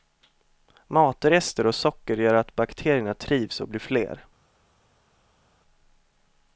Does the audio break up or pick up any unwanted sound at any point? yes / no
no